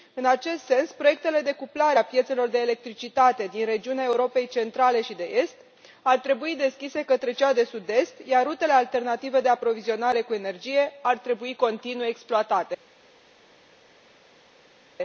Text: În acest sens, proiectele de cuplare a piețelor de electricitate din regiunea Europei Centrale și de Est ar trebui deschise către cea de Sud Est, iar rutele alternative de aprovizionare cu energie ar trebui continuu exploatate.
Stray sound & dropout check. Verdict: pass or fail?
pass